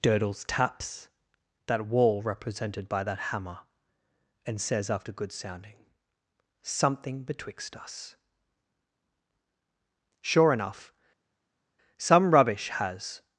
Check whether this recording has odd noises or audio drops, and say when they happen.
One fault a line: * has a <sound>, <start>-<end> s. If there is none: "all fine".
all fine